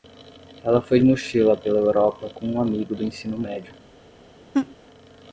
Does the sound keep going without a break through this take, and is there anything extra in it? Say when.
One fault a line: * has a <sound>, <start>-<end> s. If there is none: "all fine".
* has a laugh, 4.5-4.8 s